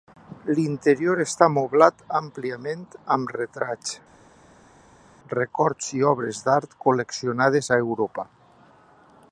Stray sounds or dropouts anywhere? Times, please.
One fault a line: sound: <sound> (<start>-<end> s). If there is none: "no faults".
no faults